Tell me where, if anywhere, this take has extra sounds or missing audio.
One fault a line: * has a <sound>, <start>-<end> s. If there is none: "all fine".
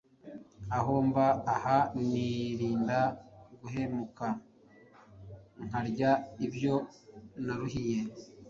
all fine